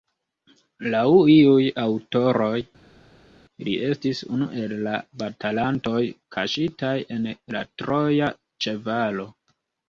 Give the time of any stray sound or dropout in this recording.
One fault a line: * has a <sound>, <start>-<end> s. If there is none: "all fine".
all fine